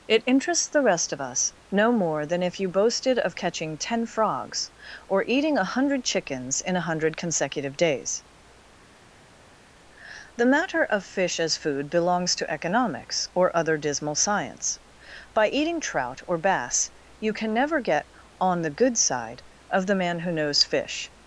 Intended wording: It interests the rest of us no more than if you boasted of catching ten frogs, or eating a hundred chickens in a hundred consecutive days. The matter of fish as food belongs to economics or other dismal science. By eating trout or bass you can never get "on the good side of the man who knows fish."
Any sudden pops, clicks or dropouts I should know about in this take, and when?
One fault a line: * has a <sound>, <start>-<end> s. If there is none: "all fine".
all fine